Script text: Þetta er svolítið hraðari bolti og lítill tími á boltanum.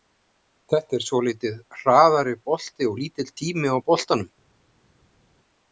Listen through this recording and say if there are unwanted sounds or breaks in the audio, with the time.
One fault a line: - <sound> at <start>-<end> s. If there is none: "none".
none